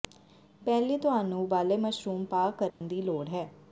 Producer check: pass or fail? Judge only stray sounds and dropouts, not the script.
fail